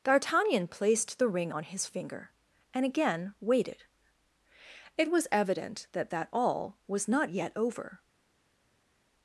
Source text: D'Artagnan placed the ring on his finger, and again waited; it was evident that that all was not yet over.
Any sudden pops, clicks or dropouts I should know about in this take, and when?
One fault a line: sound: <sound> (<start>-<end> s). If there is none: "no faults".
no faults